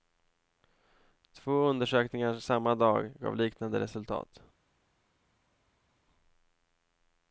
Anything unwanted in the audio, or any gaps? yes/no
no